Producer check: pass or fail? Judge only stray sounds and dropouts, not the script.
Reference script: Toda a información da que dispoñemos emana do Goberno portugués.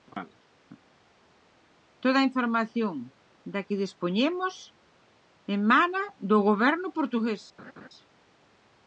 fail